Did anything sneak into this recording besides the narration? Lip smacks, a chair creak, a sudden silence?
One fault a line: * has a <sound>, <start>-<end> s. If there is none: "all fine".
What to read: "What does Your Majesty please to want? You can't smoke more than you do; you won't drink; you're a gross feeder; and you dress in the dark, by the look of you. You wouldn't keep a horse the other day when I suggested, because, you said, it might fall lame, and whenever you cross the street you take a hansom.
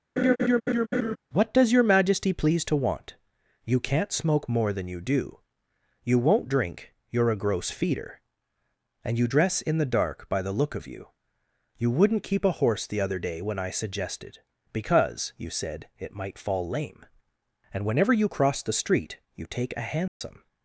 * has a laugh, 0.2-1.2 s
* has a dropout, 20.1-20.2 s